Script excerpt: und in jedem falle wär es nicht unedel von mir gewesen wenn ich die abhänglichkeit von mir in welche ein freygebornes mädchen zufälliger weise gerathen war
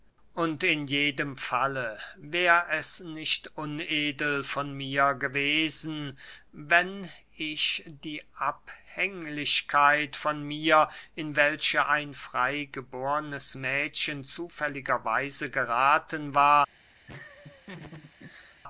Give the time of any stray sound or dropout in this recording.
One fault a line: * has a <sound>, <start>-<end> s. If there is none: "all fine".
* has a laugh, 17.1-18.6 s